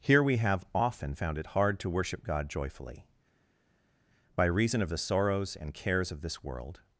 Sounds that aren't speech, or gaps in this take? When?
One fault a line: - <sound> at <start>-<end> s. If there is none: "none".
none